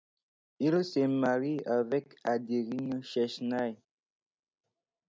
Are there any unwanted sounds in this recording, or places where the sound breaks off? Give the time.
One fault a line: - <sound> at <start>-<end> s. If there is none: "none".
none